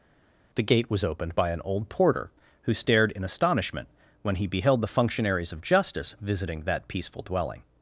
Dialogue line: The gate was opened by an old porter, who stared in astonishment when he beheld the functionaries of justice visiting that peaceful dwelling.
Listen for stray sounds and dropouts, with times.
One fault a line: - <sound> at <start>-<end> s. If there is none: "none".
none